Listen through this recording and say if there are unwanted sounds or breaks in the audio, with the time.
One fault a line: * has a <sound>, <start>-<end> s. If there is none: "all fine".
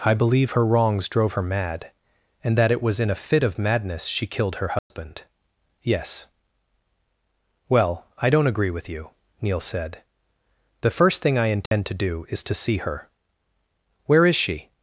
* has a dropout, 4.8-4.9 s
* has a dropout, 11.7-11.7 s